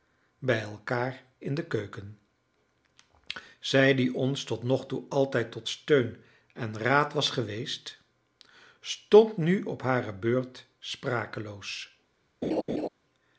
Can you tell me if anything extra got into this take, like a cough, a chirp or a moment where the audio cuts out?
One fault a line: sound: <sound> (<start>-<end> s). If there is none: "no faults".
sound: laugh (12.4-12.9 s)